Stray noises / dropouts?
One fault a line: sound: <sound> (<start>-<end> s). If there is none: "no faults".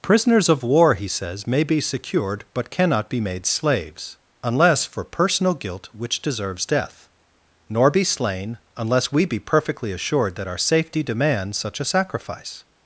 no faults